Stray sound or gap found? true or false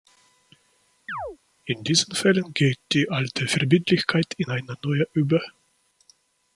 true